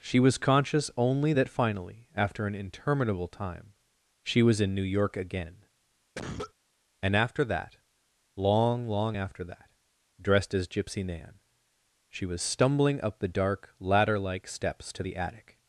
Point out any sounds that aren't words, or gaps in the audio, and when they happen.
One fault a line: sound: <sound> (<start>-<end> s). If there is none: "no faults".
sound: cough (6.2-6.5 s)